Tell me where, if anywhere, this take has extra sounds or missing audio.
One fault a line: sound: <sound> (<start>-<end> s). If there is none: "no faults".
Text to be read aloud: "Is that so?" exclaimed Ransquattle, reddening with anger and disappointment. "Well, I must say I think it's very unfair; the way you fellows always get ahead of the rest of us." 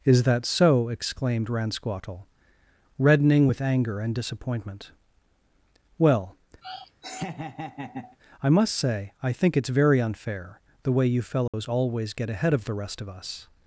sound: laugh (6.6-8.2 s)
sound: dropout (11.5-11.5 s)